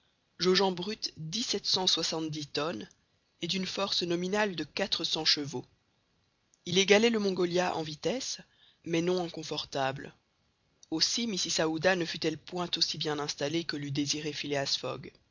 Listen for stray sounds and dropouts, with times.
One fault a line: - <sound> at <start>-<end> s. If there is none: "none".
none